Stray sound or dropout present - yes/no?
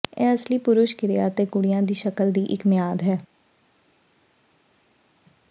no